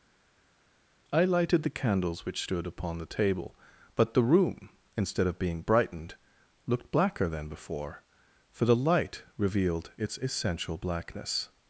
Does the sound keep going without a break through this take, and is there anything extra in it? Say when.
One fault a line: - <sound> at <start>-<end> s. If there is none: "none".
none